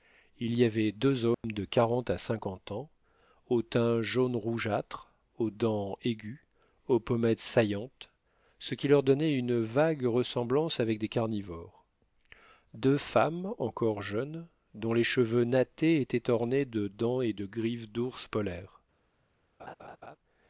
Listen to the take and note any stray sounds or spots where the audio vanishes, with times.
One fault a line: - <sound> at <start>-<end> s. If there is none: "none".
- dropout at 1.3-1.4 s
- laugh at 19.6-20.2 s